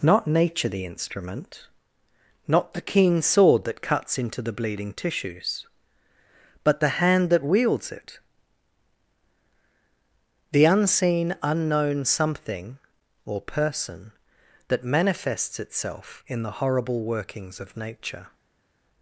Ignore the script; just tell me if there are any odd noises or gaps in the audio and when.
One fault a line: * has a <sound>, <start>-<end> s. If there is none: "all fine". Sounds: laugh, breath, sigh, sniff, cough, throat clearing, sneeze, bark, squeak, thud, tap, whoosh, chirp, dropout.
all fine